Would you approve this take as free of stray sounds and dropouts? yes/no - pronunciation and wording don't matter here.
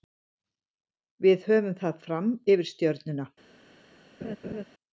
no